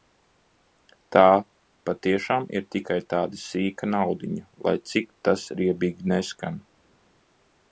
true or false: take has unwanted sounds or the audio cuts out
false